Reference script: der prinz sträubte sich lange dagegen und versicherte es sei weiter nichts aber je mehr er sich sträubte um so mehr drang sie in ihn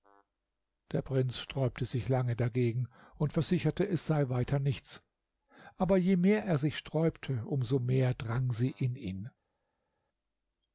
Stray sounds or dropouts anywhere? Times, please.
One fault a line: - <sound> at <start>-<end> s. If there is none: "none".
none